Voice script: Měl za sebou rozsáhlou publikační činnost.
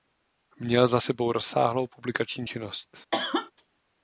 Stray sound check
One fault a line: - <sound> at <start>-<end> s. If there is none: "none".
- cough at 3.1-3.5 s